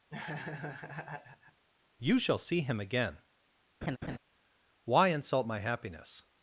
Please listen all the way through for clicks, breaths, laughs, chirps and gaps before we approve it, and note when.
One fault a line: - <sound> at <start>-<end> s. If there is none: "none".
- laugh at 0.1-1.6 s
- laugh at 3.8-4.2 s